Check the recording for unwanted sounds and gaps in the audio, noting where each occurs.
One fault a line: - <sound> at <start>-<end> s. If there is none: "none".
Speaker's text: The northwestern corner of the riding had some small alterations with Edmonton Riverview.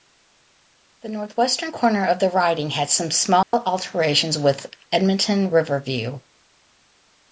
- dropout at 3.4-3.5 s